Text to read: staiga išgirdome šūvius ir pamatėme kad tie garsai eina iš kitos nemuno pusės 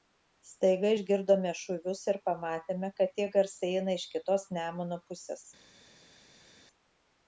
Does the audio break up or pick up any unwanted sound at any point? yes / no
no